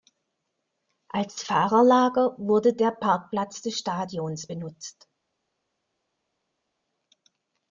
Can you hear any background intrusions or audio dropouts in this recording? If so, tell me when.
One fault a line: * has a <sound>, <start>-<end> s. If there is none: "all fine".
all fine